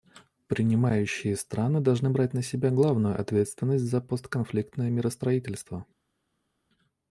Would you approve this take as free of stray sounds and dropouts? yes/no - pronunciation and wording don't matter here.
yes